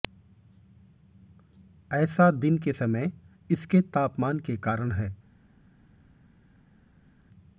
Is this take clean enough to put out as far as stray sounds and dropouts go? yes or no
yes